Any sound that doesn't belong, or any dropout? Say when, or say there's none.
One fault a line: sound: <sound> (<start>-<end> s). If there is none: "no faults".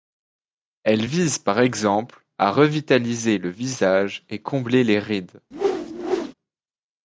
sound: whoosh (5.5-6.3 s)